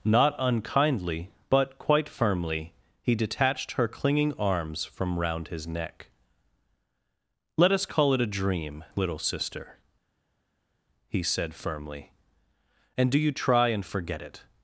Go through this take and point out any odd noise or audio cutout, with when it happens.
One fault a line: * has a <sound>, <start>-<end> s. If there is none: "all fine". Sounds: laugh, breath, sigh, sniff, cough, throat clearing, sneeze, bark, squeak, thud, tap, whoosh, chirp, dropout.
all fine